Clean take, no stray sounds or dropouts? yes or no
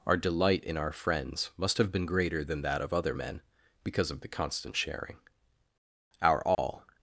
no